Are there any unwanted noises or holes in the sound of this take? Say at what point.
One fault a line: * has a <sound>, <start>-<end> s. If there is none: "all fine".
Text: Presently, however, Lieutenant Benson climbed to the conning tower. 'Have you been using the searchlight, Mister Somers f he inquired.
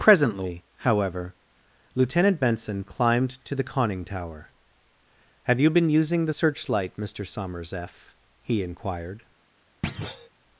* has a thud, 9.8-10.3 s